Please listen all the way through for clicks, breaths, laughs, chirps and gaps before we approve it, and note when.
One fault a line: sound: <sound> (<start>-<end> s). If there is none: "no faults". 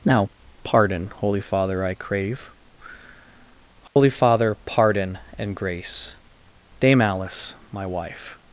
sound: dropout (3.9-4.0 s)